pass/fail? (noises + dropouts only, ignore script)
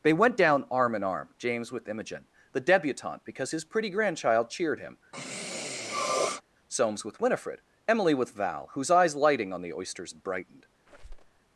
fail